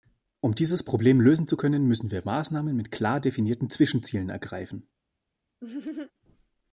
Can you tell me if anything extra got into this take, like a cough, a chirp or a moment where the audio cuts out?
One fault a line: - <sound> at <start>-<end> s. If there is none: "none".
- laugh at 5.6-6.1 s